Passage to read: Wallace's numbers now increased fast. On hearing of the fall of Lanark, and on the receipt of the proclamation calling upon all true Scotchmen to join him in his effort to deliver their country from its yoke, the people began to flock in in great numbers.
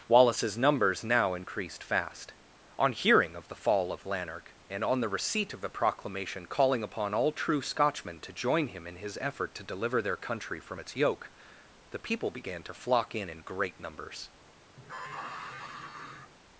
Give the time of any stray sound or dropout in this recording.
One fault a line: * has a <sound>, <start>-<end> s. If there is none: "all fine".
* has a sigh, 14.8-16.3 s